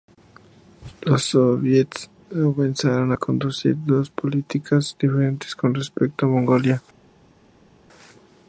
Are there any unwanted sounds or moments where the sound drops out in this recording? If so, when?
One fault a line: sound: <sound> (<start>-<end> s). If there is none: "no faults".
no faults